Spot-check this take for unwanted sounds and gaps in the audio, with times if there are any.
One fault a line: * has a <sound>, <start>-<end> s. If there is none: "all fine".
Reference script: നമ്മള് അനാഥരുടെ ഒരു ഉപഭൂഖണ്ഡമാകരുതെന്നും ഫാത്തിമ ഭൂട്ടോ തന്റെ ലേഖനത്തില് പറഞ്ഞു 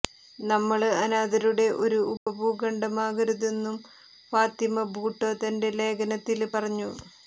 * has a dropout, 2.2-2.3 s